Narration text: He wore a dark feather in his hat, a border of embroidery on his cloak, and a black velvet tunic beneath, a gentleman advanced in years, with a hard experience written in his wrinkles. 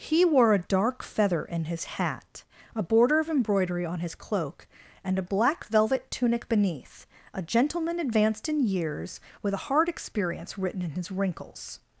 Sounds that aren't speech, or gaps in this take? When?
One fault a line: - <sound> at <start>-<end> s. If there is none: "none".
none